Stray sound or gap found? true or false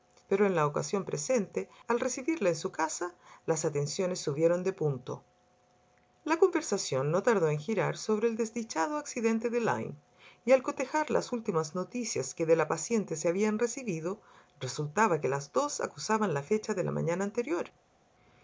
false